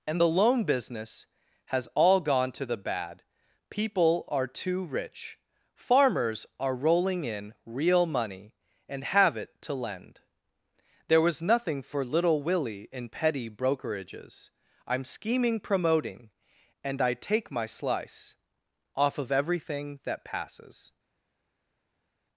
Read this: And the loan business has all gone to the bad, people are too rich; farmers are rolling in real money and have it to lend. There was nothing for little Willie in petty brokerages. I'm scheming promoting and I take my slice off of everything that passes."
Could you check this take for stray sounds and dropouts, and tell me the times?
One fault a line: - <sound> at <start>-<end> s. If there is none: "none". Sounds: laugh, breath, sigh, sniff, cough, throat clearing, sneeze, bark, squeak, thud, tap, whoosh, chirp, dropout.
none